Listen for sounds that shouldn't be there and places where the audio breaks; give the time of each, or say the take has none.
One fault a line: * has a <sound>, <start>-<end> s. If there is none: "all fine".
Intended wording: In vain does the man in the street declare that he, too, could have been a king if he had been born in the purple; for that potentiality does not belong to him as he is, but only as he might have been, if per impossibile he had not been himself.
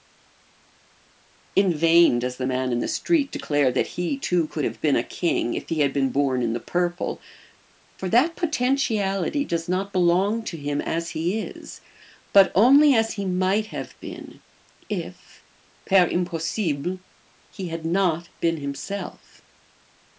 all fine